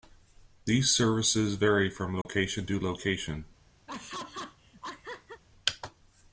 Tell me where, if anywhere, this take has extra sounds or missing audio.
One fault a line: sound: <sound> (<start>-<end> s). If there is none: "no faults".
sound: dropout (2.2-2.3 s)
sound: laugh (3.9-5.4 s)